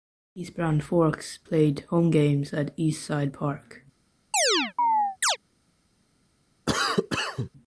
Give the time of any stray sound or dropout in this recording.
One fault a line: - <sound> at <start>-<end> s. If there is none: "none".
- chirp at 4.3-5.4 s
- cough at 6.7-7.5 s